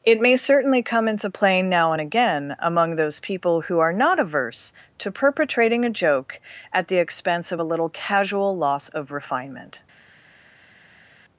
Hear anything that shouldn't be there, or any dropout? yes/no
no